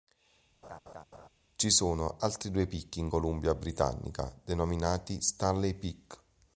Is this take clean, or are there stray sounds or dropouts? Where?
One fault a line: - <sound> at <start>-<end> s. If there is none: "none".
- laugh at 0.6-1.3 s